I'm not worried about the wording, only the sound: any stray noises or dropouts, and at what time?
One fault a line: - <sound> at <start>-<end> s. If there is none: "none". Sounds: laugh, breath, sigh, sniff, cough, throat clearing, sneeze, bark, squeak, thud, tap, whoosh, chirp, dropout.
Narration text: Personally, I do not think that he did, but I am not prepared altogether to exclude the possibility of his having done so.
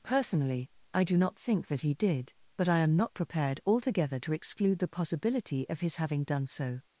none